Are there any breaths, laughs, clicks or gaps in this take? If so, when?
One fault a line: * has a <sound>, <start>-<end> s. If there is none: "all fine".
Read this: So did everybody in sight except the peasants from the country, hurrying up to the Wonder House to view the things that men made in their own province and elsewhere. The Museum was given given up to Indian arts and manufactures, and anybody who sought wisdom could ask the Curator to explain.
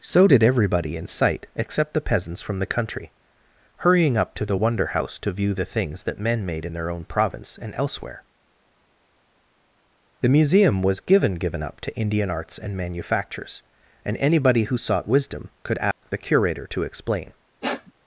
* has a dropout, 15.9-16.0 s
* has a sniff, 17.6-17.9 s